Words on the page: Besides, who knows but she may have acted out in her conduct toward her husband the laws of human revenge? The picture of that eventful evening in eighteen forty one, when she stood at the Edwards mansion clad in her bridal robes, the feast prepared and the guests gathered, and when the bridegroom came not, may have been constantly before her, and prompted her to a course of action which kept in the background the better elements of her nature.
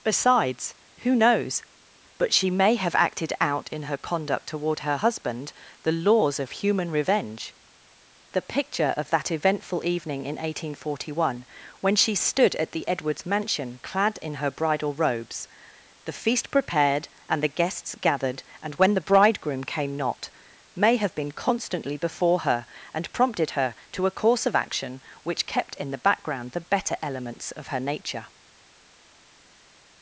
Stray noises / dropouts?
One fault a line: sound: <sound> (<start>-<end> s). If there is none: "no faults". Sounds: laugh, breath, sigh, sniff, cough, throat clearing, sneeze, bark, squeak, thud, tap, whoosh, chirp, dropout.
no faults